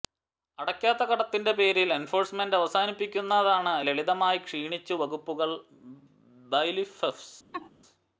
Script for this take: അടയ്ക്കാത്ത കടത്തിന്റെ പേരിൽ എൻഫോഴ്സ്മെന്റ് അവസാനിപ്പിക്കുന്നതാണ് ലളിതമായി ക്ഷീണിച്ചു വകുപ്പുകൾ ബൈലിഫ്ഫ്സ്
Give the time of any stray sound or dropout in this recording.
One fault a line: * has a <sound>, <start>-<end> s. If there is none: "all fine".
* has a laugh, 7.5-7.7 s